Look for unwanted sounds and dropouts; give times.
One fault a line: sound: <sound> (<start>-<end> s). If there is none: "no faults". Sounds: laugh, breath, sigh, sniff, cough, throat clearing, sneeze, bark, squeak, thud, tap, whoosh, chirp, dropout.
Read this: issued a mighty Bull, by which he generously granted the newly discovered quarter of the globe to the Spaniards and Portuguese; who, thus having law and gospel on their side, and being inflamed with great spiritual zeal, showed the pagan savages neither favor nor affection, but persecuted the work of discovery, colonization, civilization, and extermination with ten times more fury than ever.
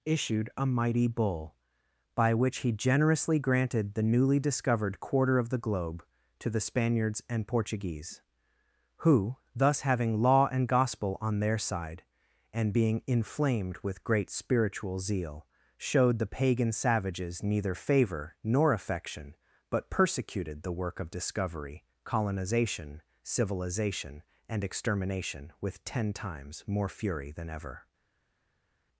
no faults